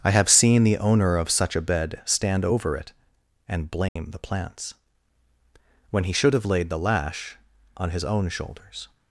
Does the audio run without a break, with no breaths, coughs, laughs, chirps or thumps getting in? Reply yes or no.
no